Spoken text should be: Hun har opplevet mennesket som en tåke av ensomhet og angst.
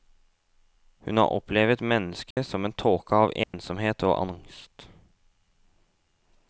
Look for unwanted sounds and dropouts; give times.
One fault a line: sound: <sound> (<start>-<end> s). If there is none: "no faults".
sound: dropout (2.3-2.4 s)
sound: dropout (3.4-3.5 s)